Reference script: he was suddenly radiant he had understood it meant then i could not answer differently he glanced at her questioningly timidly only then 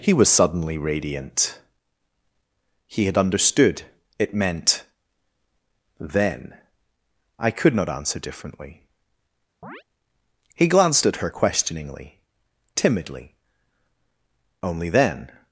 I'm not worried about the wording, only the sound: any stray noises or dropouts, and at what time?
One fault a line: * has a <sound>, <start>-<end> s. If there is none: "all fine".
* has a chirp, 9.6-9.8 s